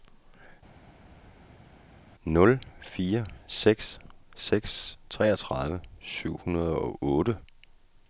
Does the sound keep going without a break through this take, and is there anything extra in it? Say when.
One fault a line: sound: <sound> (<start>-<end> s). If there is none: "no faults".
no faults